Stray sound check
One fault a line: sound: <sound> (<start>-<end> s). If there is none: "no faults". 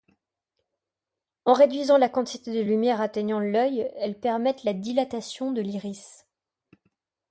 no faults